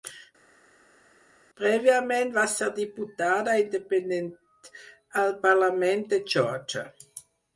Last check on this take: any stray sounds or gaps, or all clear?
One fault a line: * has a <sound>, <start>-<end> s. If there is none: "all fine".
all fine